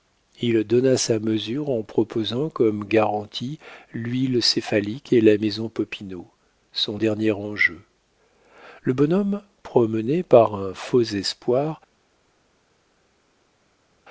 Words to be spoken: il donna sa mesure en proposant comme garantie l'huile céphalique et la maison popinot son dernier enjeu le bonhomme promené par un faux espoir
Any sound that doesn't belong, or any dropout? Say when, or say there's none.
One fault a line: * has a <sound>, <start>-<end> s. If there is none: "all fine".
all fine